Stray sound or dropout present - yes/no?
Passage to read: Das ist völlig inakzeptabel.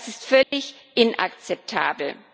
yes